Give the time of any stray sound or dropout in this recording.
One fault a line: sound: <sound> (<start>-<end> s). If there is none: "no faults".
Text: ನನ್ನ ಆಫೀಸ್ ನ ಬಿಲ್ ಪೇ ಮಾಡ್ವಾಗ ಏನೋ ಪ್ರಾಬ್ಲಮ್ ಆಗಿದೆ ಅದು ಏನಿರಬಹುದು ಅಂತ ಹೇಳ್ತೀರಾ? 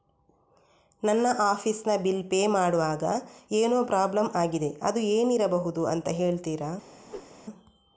sound: whoosh (7.0-7.3 s)